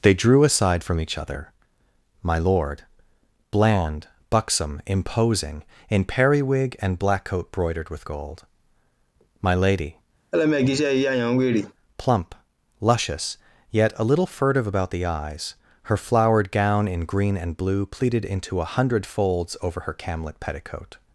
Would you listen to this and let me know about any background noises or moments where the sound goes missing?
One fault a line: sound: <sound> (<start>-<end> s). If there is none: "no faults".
sound: laugh (10.3-11.7 s)